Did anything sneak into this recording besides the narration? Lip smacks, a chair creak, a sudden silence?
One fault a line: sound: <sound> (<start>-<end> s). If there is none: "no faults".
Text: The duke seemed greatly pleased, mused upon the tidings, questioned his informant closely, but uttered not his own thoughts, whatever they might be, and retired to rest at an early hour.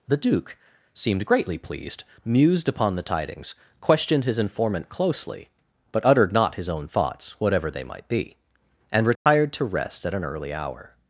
sound: dropout (9.2-9.3 s)